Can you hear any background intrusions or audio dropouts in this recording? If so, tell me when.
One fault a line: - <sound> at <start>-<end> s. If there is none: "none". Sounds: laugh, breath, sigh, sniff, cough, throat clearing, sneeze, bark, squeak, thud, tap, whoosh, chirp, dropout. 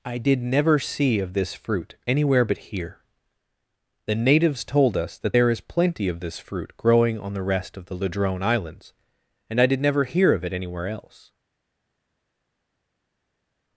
none